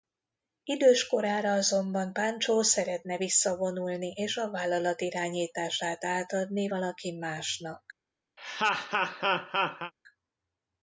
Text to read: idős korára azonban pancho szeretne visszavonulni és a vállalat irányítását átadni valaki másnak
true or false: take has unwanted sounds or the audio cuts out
true